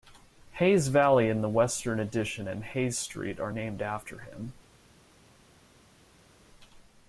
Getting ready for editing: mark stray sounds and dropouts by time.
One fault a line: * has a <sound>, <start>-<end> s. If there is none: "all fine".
all fine